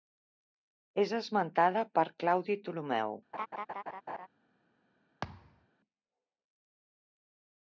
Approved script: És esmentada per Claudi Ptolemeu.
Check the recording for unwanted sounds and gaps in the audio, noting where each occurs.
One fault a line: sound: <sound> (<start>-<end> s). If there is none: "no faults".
sound: laugh (3.3-4.3 s)
sound: thud (5.2-5.7 s)